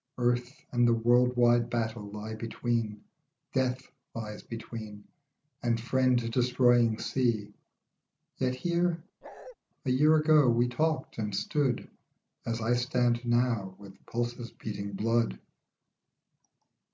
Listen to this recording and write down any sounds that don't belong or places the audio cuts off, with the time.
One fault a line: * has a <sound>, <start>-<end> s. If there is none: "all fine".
* has a bark, 9.2-9.6 s